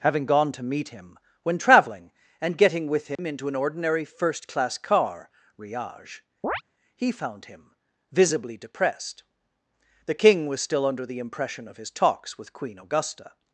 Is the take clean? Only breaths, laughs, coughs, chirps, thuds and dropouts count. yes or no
no